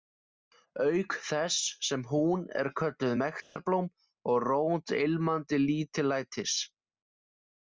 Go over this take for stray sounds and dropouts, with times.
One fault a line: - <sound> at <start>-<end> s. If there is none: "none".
- dropout at 3.4-3.6 s